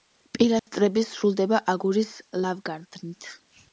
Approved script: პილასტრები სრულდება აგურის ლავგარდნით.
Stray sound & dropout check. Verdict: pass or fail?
fail